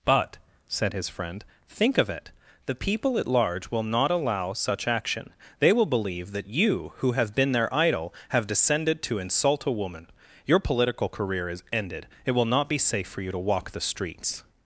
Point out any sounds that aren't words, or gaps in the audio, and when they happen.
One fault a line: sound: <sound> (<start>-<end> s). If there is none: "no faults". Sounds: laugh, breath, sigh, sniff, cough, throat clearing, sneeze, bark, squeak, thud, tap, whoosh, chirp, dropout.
no faults